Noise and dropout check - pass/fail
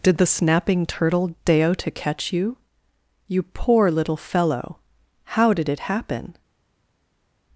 pass